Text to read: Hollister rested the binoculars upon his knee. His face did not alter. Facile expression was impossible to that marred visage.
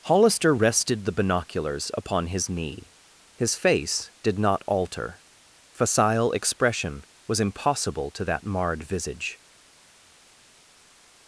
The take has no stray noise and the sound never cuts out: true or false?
true